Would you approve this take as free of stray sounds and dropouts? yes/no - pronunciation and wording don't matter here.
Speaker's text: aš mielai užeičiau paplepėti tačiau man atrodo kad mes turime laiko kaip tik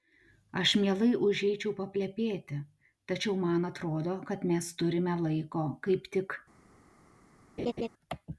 no